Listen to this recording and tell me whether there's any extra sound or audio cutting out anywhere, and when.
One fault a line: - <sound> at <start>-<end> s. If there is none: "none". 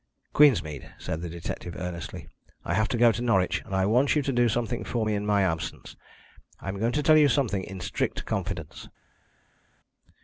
none